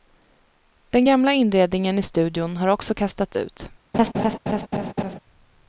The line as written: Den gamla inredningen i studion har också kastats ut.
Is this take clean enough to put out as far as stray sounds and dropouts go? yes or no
no